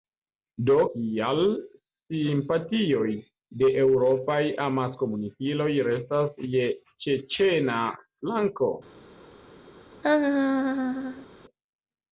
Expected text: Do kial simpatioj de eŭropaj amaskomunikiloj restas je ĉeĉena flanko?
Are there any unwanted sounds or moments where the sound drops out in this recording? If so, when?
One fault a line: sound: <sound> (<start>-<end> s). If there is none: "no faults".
sound: laugh (10.0-11.3 s)